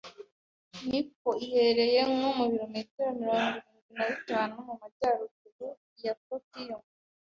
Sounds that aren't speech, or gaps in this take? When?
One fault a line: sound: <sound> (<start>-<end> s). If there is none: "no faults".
no faults